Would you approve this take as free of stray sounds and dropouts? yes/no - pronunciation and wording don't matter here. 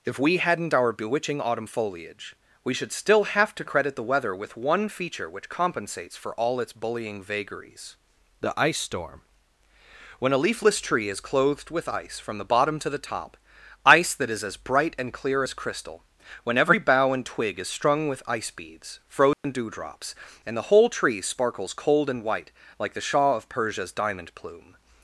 no